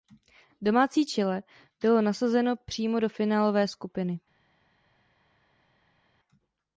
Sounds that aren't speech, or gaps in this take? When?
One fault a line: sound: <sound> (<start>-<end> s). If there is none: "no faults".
no faults